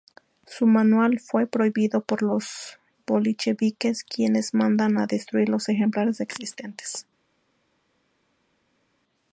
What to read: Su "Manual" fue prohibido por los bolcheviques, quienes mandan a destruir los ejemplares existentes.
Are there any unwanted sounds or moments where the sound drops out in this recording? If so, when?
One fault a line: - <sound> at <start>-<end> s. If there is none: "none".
none